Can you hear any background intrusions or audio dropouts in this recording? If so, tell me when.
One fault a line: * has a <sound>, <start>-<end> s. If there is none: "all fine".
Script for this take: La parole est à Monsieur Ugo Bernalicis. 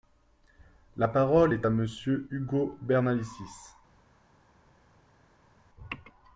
all fine